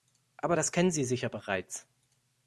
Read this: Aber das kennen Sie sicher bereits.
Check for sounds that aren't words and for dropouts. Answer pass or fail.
pass